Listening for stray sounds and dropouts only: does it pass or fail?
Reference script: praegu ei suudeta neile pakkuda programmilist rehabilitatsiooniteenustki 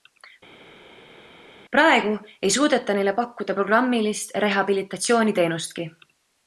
pass